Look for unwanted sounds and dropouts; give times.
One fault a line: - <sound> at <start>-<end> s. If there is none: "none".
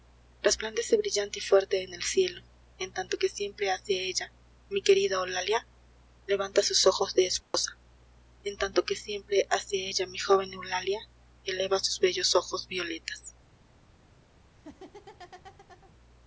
- dropout at 7.4-7.5 s
- laugh at 14.5-15.9 s